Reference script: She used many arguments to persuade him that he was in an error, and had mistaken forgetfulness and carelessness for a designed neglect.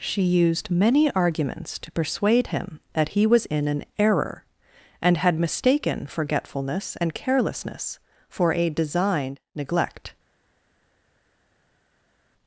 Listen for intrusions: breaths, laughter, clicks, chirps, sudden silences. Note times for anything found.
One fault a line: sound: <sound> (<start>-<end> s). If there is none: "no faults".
no faults